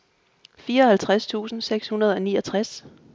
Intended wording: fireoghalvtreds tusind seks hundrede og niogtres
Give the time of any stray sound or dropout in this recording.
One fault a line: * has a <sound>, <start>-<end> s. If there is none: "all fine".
all fine